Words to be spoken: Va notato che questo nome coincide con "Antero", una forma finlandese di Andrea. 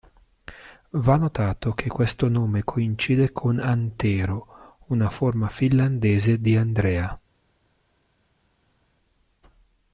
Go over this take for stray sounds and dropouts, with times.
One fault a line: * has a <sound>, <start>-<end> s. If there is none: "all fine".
all fine